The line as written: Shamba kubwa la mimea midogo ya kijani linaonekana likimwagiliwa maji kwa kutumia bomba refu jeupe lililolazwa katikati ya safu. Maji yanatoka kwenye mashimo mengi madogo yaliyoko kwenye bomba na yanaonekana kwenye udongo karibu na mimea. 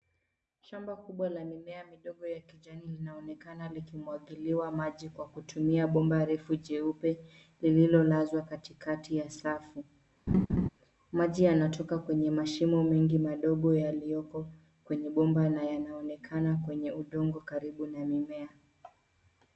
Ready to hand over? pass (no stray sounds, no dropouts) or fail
fail